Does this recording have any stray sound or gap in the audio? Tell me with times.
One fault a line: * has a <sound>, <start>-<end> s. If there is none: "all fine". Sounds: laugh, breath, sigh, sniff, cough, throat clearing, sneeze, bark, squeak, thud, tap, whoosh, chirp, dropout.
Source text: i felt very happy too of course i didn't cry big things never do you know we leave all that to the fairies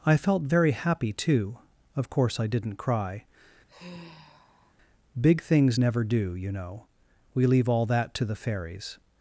* has a sigh, 3.7-4.8 s